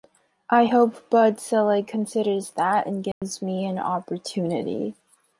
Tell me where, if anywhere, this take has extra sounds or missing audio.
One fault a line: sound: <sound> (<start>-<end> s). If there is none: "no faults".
sound: dropout (3.1-3.2 s)